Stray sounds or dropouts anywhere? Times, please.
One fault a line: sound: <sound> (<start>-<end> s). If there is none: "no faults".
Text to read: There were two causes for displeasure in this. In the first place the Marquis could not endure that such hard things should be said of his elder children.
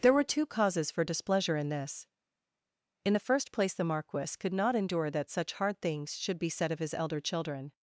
no faults